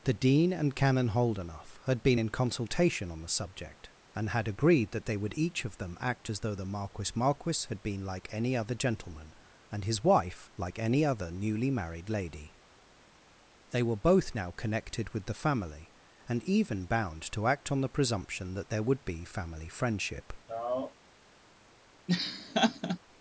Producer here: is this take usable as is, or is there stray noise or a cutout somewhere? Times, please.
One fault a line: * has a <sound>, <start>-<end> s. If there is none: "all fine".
* has a sigh, 20.5-20.9 s
* has a laugh, 22.1-23.0 s